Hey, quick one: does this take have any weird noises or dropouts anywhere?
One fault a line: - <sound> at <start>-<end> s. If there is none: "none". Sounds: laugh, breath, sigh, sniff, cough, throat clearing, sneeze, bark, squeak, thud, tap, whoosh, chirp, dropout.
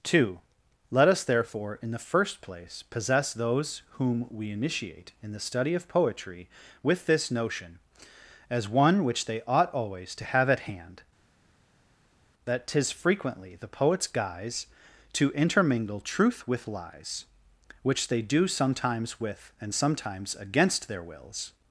none